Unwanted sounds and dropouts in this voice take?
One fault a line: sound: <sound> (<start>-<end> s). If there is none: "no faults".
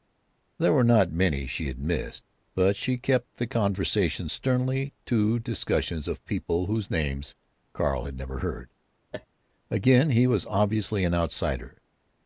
sound: laugh (9.1-9.3 s)